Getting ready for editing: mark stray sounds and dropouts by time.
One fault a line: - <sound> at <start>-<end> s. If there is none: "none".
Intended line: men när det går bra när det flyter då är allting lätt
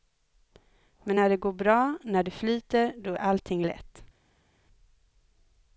none